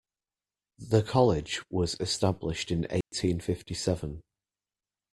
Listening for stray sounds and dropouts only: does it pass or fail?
fail